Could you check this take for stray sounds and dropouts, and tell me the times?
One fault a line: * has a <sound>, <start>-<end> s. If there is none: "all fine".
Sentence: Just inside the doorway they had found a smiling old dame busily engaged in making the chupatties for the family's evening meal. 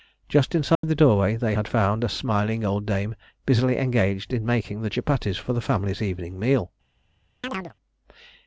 * has a dropout, 0.7-0.8 s
* has a chirp, 7.4-7.7 s